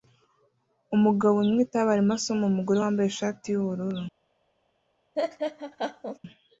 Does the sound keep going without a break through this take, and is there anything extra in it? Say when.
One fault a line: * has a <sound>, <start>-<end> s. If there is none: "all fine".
* has a laugh, 5.2-6.2 s